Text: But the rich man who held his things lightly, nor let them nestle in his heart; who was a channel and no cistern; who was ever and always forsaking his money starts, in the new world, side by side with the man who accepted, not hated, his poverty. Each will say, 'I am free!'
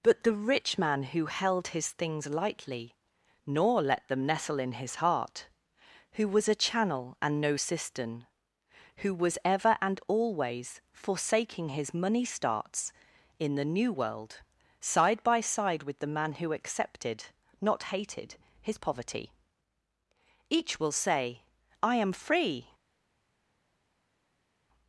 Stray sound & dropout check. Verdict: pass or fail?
pass